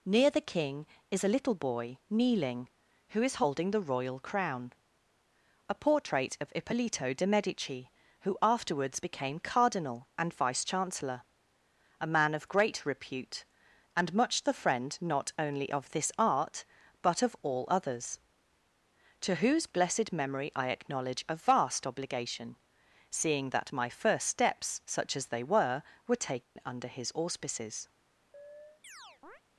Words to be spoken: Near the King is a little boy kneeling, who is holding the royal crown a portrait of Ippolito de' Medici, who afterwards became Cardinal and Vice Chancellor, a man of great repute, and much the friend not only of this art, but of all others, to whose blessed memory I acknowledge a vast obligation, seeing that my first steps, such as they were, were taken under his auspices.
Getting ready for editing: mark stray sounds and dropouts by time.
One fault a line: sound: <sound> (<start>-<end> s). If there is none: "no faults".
sound: dropout (26.4-26.6 s)
sound: chirp (28.3-29.4 s)